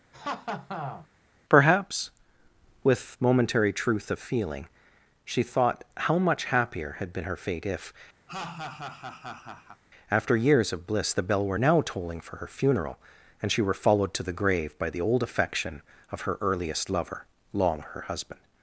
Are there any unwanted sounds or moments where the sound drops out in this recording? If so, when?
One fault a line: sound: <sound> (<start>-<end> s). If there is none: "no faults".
sound: laugh (0.1-1.1 s)
sound: laugh (8.3-9.8 s)